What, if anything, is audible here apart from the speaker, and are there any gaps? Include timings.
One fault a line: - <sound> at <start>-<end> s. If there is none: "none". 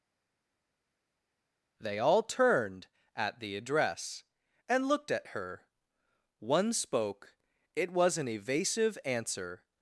none